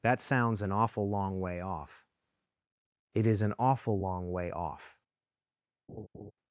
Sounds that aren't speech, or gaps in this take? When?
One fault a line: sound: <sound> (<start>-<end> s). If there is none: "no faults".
sound: laugh (5.9-6.3 s)